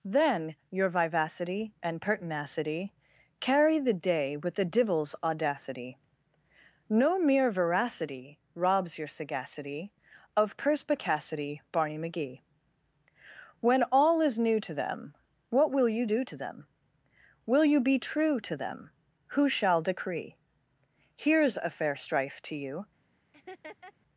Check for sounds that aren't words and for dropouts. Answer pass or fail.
fail